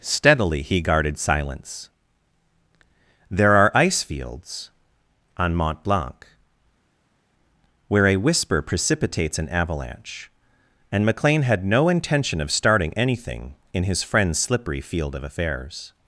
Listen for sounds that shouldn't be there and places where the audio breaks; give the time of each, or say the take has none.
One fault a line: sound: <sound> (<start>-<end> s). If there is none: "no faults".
no faults